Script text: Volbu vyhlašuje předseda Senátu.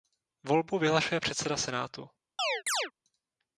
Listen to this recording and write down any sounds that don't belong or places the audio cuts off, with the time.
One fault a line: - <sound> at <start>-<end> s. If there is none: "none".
- chirp at 2.4-2.9 s